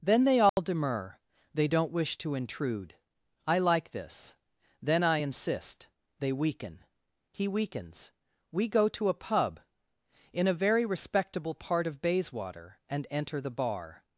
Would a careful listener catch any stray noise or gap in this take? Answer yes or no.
yes